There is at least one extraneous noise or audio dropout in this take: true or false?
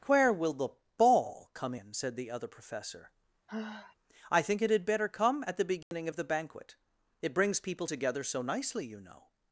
true